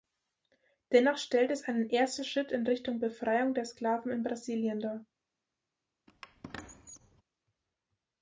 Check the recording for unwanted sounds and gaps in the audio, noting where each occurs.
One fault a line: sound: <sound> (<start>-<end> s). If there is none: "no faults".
sound: squeak (6.1-7.2 s)